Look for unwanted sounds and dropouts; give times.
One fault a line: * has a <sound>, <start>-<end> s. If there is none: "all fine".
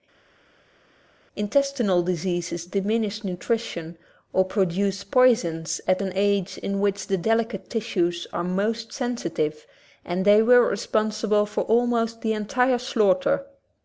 all fine